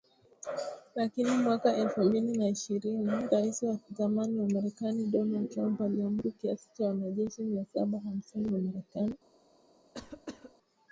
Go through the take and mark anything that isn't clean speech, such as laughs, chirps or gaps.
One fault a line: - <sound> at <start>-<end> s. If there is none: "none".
- cough at 9.9-10.5 s